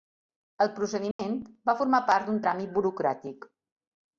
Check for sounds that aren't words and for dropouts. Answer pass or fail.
fail